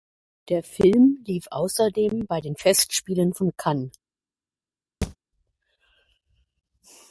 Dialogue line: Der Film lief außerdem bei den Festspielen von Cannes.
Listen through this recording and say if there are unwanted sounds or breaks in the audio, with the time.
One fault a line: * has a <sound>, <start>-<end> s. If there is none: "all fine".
* has a thud, 5.0-5.2 s